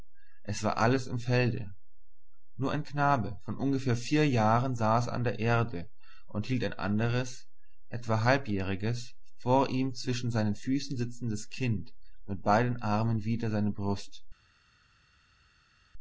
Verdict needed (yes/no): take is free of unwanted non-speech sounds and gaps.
yes